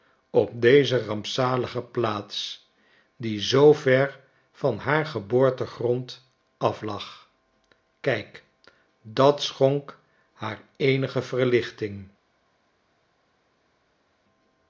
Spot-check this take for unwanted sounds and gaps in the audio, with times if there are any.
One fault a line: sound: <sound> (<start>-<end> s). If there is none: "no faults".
no faults